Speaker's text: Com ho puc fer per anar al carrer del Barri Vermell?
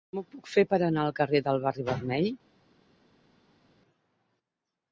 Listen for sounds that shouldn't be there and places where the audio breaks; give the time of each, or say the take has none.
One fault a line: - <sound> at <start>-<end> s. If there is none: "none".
none